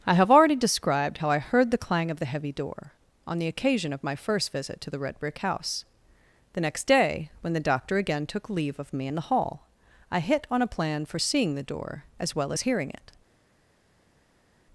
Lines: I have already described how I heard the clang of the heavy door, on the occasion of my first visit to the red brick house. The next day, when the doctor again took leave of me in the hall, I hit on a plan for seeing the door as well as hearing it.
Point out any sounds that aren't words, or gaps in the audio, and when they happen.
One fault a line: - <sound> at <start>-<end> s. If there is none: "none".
none